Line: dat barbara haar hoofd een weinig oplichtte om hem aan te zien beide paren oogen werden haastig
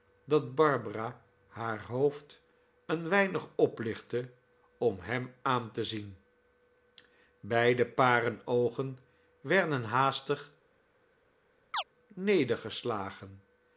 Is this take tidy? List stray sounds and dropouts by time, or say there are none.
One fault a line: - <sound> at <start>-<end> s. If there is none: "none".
- chirp at 11.7-11.8 s